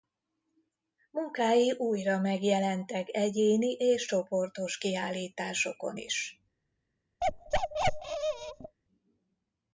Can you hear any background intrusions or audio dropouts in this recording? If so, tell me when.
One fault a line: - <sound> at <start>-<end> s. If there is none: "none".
- bark at 7.2-8.8 s